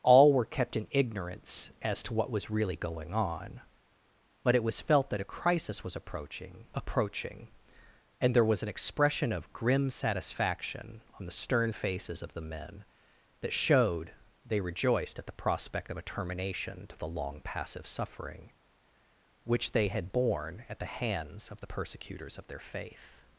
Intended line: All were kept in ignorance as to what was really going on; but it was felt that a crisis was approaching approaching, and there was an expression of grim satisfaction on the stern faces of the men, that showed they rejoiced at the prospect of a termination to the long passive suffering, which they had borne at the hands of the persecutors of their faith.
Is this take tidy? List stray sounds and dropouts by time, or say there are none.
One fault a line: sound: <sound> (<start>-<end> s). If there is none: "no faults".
no faults